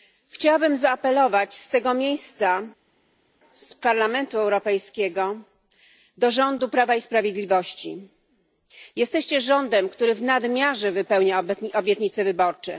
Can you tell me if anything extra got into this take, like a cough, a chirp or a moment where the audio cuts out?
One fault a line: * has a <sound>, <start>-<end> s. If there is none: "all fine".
all fine